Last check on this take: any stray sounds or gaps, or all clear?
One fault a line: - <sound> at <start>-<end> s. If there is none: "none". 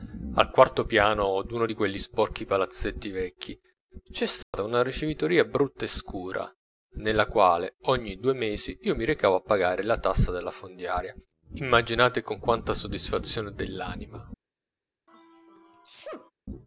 - dropout at 4.4-4.5 s
- sneeze at 15.1-16.3 s